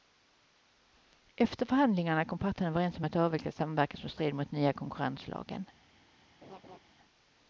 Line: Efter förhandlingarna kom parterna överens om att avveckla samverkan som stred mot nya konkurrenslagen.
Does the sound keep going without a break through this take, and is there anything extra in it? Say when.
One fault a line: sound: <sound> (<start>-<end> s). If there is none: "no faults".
sound: laugh (6.4-6.8 s)